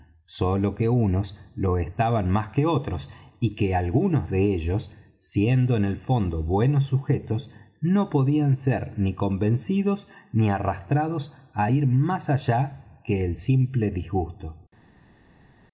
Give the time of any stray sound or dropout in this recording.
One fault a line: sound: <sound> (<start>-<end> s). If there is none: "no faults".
no faults